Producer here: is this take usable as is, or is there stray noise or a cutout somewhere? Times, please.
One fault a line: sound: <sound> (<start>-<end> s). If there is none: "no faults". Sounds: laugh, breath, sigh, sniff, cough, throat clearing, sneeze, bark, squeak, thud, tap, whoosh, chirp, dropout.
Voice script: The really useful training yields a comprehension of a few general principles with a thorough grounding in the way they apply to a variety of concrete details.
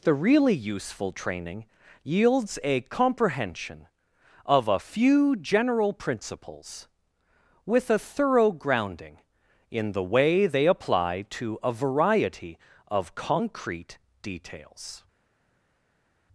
no faults